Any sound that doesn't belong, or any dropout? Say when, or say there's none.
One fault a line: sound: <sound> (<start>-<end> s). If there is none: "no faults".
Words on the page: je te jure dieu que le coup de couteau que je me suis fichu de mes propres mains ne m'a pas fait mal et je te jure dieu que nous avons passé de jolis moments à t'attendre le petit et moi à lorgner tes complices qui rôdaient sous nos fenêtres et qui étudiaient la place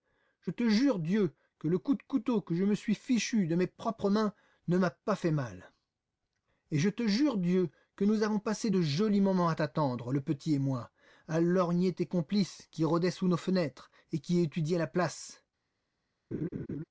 sound: laugh (16.3-16.8 s)